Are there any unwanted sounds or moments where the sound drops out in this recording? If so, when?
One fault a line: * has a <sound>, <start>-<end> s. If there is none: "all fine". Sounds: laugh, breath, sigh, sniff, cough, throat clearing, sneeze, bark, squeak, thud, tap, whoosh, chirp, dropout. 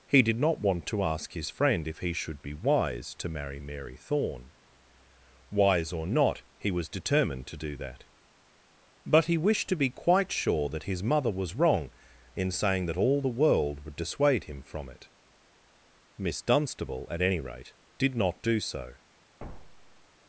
* has a thud, 19.4-20.1 s